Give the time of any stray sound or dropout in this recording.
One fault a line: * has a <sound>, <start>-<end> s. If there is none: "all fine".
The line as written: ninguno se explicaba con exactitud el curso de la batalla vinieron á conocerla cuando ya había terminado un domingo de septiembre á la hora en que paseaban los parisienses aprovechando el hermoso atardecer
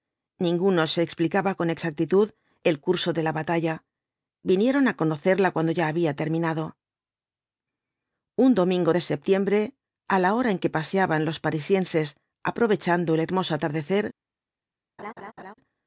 * has a laugh, 15.0-15.5 s